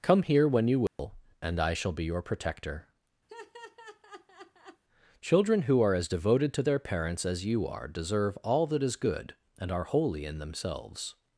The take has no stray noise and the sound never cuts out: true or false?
false